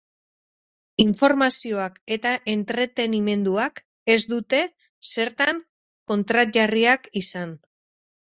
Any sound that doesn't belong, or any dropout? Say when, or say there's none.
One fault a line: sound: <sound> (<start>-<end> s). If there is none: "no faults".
no faults